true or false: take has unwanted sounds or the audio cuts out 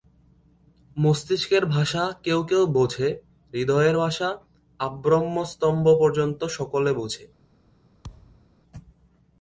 true